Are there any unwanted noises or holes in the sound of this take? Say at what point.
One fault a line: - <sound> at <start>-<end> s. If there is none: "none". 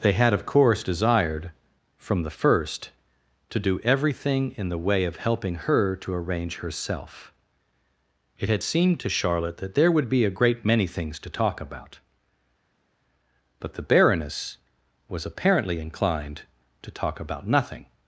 none